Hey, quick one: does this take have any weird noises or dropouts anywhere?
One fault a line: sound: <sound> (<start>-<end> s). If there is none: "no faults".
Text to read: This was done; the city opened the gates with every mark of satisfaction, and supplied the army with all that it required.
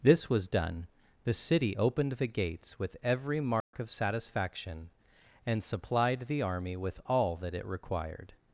sound: dropout (3.6-3.7 s)